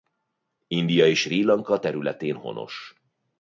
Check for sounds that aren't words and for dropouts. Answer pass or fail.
pass